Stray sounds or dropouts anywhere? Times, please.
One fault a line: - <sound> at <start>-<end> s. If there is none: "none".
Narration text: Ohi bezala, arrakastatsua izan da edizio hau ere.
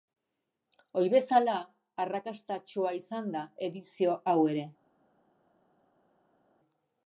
none